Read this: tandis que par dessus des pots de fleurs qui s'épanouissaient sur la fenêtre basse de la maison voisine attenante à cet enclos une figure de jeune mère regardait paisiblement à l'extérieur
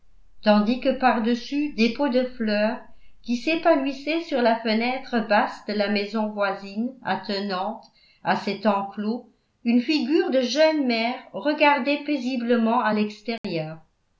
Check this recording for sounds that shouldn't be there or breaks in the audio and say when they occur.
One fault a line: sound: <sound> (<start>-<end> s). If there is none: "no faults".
sound: dropout (13.4-13.4 s)